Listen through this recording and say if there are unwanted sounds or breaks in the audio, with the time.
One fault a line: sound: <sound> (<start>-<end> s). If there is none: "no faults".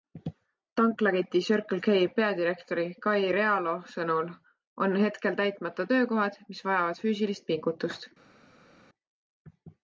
no faults